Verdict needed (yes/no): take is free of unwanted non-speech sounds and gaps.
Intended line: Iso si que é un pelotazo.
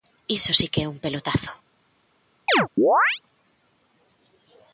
no